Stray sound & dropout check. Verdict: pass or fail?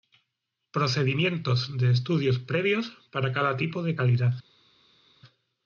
pass